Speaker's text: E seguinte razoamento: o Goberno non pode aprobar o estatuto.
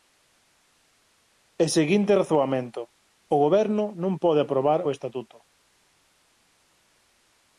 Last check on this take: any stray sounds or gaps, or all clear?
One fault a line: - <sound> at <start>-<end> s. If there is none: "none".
none